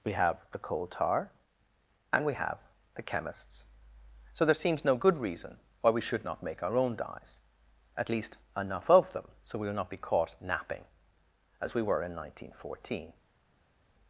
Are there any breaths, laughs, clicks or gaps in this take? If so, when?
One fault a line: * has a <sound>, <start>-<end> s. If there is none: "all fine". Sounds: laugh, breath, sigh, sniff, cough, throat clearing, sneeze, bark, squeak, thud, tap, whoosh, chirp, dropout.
all fine